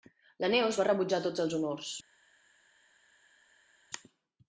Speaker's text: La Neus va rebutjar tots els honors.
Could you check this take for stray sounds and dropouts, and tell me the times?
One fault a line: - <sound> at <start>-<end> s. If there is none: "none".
none